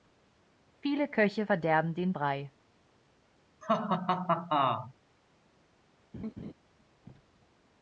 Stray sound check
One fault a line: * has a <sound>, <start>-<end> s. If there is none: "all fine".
* has a laugh, 3.6-4.9 s
* has a laugh, 6.1-6.5 s